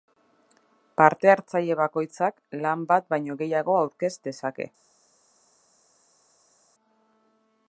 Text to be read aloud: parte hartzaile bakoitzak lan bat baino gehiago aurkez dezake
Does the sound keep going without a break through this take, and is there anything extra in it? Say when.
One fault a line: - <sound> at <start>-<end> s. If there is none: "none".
none